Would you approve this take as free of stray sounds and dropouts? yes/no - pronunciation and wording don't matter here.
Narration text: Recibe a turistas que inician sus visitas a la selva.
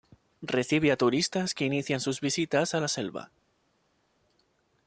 yes